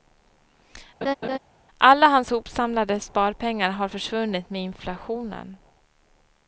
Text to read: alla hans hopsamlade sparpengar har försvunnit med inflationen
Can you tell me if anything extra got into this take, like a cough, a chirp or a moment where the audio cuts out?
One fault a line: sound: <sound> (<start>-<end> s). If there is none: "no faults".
sound: laugh (1.0-1.4 s)